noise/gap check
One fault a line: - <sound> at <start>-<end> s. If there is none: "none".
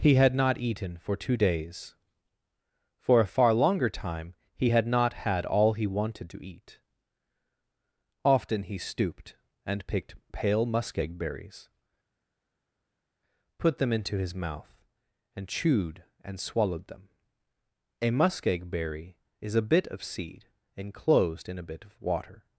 none